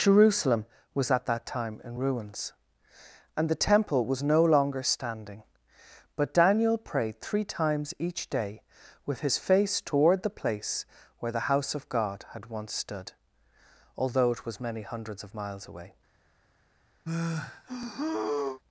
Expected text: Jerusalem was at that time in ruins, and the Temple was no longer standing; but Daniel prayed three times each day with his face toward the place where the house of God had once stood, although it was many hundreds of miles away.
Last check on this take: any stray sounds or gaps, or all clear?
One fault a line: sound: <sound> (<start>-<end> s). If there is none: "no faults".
sound: sigh (17.1-18.6 s)